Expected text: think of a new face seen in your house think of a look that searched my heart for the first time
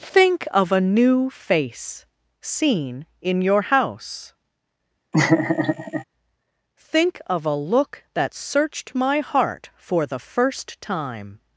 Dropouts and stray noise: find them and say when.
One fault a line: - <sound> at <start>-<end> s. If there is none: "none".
- laugh at 5.1-6.0 s